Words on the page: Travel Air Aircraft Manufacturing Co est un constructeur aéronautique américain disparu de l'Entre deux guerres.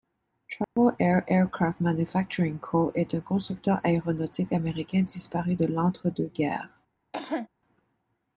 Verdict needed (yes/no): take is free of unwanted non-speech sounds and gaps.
no